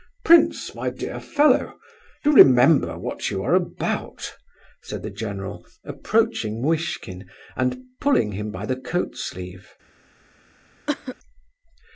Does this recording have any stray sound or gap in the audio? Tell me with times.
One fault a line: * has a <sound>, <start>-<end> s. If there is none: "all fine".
* has a cough, 10.9-11.2 s